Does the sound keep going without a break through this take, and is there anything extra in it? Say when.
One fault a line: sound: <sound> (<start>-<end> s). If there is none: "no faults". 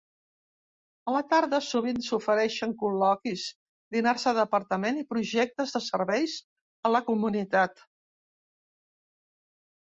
no faults